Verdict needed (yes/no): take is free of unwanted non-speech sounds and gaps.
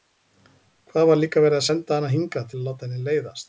yes